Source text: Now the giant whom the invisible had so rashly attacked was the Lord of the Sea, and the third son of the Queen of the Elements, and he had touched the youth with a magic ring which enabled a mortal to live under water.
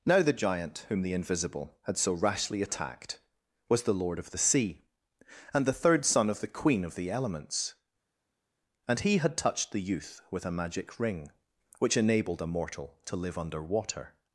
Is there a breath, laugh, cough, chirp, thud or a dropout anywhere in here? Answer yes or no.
no